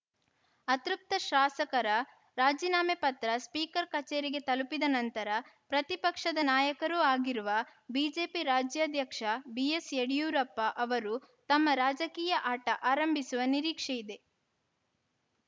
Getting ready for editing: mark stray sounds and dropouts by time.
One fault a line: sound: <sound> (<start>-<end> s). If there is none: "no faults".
no faults